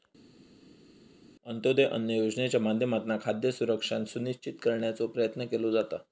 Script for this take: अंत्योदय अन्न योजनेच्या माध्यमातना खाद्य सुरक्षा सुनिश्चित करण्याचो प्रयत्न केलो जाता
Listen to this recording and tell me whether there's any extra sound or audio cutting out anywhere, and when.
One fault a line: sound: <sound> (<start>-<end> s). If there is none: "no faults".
no faults